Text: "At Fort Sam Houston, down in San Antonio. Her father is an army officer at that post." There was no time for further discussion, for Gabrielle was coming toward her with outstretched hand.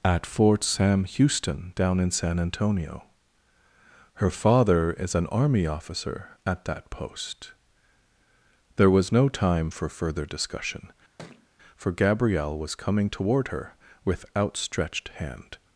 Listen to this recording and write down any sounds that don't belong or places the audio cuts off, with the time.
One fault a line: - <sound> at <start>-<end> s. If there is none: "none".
- thud at 11.2-11.5 s